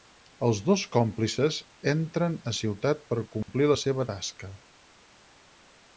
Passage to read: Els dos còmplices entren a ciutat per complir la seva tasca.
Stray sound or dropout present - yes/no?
yes